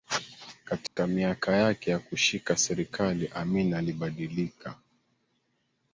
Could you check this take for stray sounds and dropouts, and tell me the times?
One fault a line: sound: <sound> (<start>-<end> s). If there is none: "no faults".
sound: dropout (0.9-1.0 s)